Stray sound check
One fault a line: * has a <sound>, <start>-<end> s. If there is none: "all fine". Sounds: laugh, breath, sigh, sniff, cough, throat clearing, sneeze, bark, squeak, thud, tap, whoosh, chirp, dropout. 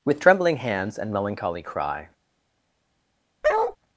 * has a bark, 3.4-3.8 s